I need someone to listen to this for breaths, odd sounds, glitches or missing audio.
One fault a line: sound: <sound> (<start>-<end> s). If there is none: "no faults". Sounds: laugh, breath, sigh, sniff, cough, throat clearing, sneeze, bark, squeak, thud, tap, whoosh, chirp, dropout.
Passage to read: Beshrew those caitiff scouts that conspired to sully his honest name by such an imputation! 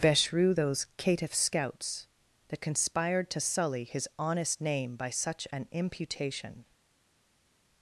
no faults